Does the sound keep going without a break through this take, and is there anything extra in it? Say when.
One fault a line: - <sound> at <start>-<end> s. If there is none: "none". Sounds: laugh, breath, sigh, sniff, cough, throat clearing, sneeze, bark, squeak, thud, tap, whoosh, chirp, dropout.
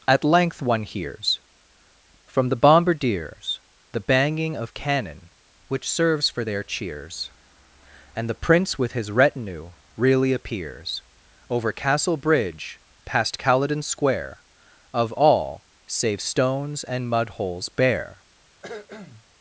- cough at 18.6-19.3 s